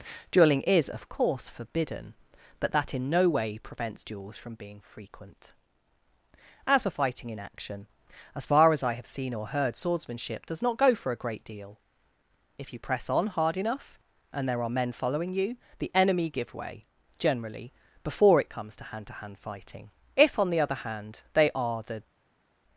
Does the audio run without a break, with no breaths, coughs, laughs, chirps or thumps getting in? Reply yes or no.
yes